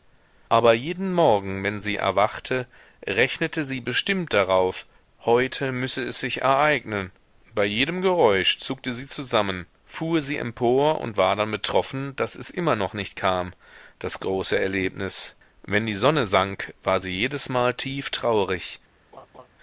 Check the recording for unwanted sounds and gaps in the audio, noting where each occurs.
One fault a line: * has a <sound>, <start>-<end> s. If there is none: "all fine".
* has a laugh, 19.1-19.5 s